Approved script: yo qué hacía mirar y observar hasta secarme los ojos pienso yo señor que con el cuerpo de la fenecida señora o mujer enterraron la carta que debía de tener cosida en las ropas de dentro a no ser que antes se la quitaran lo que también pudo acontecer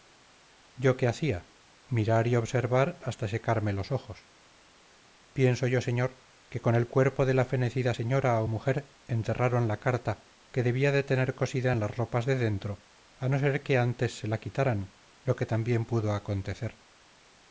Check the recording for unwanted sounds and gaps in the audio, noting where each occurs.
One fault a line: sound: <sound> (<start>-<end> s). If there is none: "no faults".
no faults